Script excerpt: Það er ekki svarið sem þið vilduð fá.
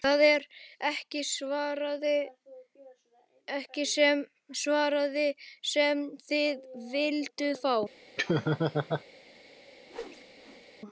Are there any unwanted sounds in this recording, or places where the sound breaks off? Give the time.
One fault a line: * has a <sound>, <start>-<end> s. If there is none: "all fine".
* has a laugh, 8.2-9.0 s
* has a whoosh, 9.9-10.7 s